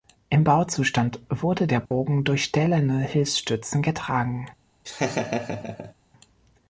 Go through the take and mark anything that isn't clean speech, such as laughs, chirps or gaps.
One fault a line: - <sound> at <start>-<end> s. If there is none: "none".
- dropout at 1.9-1.9 s
- laugh at 4.8-5.9 s